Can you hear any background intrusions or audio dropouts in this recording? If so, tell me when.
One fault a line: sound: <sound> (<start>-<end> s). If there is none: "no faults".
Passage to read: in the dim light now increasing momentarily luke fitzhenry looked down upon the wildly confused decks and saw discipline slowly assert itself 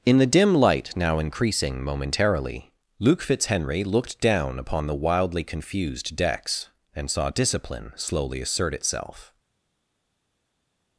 no faults